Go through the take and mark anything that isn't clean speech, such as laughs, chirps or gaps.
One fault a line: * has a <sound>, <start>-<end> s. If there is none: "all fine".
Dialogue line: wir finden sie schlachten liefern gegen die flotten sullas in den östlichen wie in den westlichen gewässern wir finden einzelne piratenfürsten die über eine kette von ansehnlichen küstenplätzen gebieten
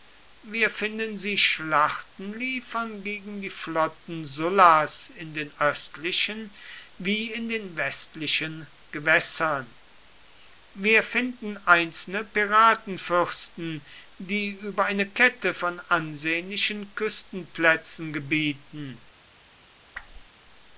* has a whoosh, 19.9-20.3 s